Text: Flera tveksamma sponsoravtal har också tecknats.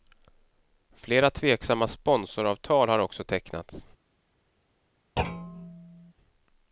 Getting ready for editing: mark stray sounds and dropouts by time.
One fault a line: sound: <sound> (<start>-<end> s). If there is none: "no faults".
sound: thud (5.2-6.1 s)